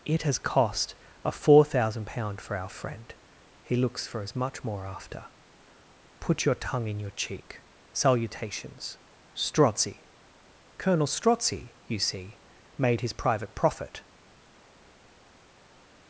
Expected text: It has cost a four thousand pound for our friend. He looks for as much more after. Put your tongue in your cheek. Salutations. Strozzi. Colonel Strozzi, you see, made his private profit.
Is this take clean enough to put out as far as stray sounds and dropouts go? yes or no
yes